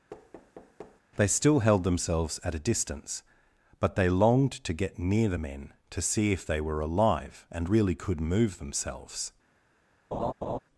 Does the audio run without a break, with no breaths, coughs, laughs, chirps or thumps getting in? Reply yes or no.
no